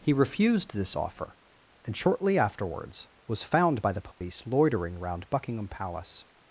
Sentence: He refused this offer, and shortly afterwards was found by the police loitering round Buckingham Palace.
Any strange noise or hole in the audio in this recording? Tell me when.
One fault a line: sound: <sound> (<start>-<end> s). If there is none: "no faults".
sound: dropout (4.1-4.2 s)